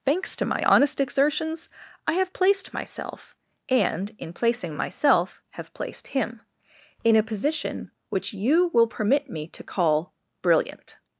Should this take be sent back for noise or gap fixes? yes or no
no